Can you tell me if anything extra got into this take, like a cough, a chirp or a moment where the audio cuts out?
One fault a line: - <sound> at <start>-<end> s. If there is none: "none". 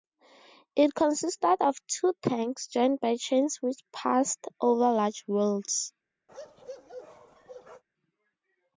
- bark at 6.3-7.8 s